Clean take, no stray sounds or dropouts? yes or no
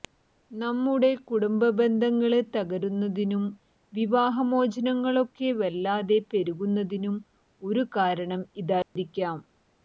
no